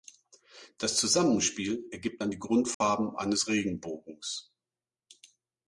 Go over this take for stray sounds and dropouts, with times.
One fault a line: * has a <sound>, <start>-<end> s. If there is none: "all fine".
* has a dropout, 2.7-2.8 s